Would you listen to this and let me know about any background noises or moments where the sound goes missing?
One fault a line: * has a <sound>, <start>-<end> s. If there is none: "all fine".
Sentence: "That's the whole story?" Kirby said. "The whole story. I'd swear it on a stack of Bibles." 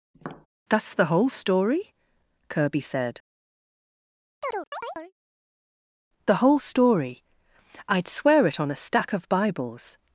* has a tap, 0.1-0.5 s
* has a chirp, 4.4-5.1 s